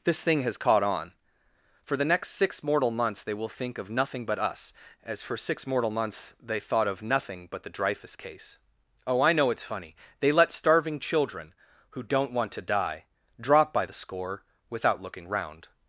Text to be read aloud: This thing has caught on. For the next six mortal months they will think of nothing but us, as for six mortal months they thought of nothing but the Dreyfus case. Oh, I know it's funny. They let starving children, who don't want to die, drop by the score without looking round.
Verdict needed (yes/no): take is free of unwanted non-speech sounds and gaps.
yes